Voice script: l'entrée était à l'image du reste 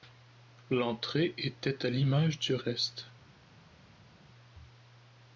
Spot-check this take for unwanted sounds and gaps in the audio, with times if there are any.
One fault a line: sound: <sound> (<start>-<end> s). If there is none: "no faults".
no faults